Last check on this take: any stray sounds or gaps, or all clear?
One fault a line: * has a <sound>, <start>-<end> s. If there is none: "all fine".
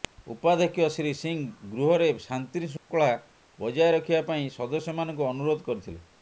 * has a dropout, 2.8-2.9 s